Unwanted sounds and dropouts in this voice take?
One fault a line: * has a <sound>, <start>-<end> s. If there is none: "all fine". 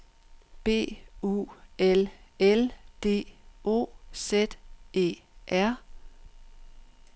all fine